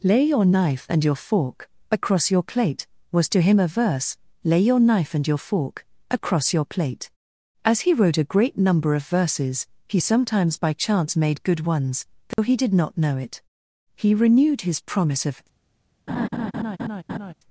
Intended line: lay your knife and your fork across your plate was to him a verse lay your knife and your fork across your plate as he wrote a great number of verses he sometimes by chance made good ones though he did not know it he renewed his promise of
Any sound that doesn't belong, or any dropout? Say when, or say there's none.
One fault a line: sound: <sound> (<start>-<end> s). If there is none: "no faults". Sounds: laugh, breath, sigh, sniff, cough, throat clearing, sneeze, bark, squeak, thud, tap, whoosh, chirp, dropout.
sound: dropout (12.3-12.4 s)
sound: laugh (16.1-17.3 s)